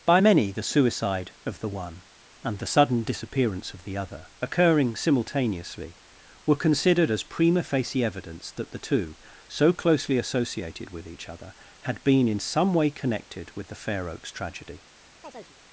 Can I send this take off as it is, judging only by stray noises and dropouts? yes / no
no